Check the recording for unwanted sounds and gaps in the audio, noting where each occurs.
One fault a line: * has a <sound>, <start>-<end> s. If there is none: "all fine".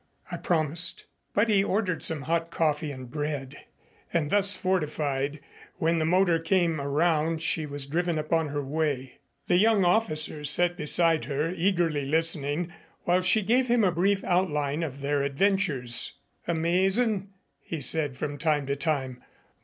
all fine